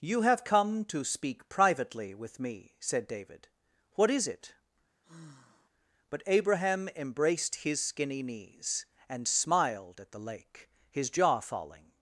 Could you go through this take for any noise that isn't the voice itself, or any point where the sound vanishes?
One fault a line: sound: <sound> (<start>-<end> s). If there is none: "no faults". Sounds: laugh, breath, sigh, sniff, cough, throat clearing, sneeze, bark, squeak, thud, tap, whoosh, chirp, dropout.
sound: sigh (5.0-5.7 s)